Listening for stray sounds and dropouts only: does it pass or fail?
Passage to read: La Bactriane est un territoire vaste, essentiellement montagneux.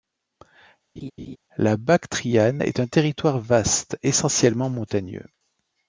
fail